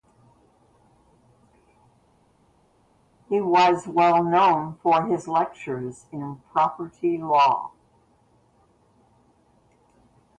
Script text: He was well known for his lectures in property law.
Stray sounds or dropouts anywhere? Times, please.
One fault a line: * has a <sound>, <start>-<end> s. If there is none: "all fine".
all fine